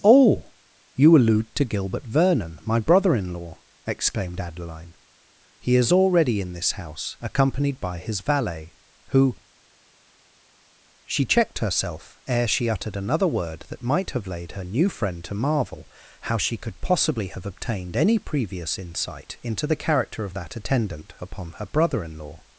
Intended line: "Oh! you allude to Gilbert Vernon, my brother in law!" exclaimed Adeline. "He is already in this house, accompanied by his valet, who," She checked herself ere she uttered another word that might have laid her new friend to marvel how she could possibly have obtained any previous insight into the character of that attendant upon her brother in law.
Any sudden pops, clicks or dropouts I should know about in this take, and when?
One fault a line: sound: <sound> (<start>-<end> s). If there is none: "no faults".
no faults